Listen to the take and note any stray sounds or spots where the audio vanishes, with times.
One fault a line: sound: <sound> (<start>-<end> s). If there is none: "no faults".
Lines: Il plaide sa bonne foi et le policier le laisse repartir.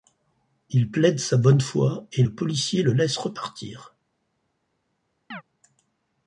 sound: chirp (5.3-5.4 s)